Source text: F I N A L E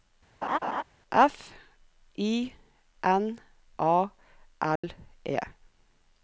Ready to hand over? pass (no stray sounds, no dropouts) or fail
fail